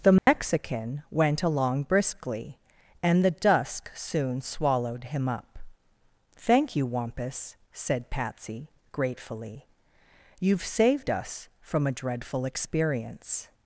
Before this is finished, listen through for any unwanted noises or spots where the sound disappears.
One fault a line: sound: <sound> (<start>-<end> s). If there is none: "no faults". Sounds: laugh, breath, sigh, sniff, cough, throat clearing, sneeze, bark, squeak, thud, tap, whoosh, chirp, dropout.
sound: dropout (0.2-0.3 s)